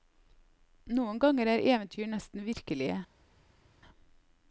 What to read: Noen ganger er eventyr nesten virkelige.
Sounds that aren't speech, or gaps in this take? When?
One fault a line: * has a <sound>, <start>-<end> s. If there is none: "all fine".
all fine